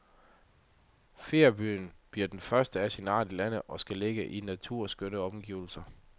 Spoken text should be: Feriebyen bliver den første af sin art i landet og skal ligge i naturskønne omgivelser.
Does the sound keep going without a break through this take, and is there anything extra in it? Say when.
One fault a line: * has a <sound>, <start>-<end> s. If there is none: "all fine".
all fine